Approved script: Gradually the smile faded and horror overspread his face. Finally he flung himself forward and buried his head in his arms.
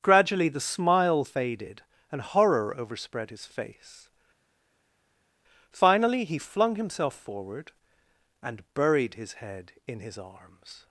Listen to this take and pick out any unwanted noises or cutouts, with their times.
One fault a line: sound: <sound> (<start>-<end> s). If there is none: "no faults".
no faults